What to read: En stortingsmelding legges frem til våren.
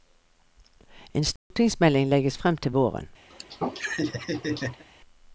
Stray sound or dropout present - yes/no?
yes